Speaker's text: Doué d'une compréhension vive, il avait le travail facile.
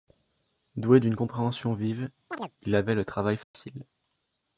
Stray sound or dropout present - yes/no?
yes